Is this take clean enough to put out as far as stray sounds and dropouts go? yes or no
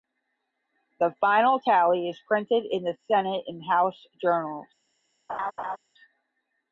no